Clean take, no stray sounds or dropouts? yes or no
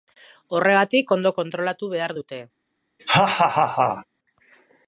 no